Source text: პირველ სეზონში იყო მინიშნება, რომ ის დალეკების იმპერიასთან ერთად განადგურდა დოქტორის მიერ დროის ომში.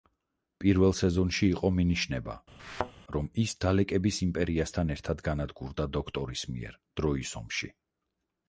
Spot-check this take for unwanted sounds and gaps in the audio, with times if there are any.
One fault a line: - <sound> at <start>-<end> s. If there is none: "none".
- thud at 2.6-2.9 s